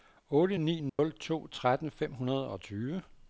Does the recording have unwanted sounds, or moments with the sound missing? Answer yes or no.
yes